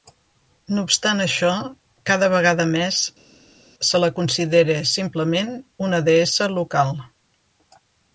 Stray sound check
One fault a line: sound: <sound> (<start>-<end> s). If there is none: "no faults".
no faults